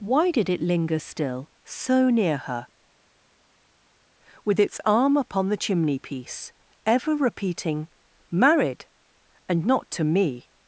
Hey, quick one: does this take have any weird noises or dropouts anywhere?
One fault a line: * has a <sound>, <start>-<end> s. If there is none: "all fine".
all fine